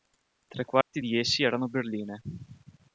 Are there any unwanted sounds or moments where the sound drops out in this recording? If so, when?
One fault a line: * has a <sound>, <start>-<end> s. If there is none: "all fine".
* has a dropout, 0.8-0.9 s